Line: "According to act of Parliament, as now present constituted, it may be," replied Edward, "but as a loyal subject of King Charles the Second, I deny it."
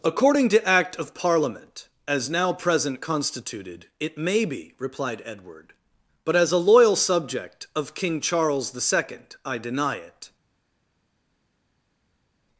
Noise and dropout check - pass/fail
pass